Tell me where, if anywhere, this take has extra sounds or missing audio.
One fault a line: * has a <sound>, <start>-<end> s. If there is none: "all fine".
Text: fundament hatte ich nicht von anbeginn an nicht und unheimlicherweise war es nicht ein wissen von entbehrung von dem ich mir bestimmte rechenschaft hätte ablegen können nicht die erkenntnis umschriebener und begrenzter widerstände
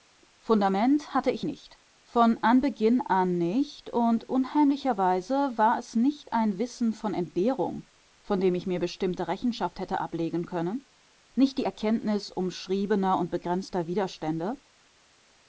all fine